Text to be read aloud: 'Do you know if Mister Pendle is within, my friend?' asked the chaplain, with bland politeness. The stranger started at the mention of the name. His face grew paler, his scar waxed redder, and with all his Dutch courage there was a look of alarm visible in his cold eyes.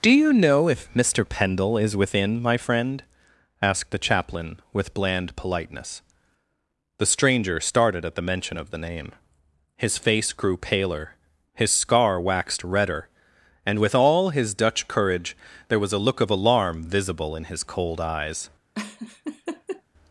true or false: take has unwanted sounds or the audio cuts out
true